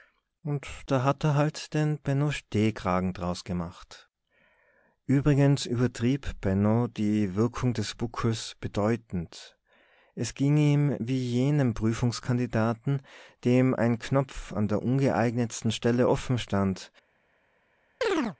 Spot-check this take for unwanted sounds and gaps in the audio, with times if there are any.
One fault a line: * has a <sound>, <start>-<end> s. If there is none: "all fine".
* has a chirp, 18.0-18.4 s